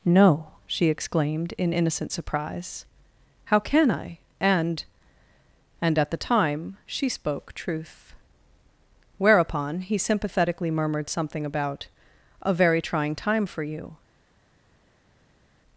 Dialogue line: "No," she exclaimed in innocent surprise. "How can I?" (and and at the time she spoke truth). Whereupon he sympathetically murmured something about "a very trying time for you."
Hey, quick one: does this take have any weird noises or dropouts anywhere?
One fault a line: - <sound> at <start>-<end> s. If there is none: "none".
none